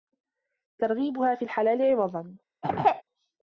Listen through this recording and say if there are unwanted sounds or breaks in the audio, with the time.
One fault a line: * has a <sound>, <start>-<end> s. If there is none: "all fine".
* has a throat clearing, 2.6-3.0 s